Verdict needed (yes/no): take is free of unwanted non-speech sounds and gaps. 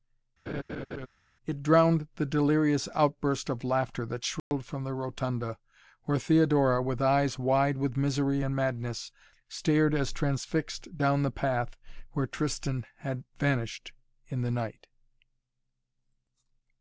no